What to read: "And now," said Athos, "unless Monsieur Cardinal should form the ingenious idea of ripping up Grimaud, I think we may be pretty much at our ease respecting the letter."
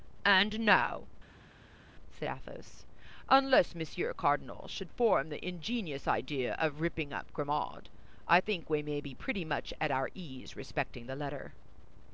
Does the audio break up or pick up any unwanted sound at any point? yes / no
no